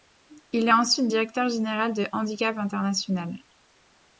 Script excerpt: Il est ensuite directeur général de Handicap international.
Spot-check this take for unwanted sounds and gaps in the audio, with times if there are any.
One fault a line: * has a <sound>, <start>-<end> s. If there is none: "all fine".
all fine